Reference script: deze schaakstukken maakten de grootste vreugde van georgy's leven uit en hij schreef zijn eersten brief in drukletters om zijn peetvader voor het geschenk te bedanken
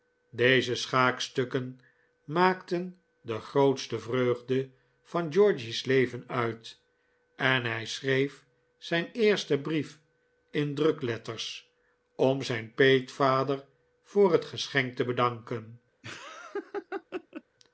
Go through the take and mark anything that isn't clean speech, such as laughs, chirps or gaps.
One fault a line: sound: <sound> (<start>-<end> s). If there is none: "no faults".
sound: laugh (16.0-17.4 s)